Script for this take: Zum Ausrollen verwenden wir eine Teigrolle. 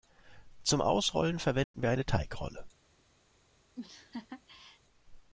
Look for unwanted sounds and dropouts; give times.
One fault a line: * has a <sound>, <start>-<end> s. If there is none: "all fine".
* has a dropout, 1.6-1.7 s
* has a laugh, 3.8-4.8 s